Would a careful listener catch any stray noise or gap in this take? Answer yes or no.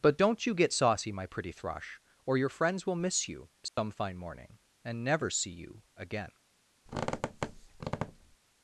yes